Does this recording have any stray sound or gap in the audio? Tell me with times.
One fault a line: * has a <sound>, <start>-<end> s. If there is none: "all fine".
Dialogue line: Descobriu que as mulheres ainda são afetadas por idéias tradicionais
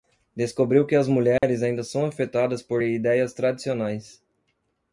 * has a dropout, 1.4-1.4 s